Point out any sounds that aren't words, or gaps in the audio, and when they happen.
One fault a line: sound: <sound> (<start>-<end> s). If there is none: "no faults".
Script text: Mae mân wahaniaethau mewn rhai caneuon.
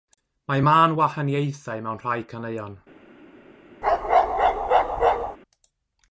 sound: bark (3.8-5.4 s)